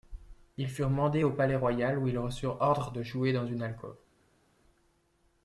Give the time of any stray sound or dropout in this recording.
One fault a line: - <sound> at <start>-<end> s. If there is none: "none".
none